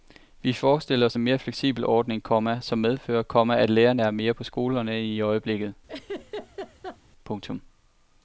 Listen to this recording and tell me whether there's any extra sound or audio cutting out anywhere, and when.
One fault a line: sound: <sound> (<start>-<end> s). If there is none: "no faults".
sound: laugh (5.9-7.0 s)